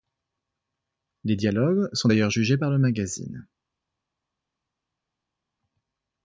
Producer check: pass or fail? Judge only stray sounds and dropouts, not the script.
pass